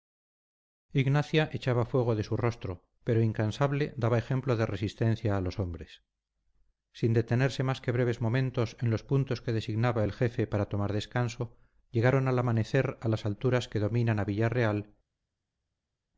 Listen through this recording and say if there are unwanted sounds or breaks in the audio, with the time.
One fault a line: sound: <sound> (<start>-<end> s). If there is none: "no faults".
no faults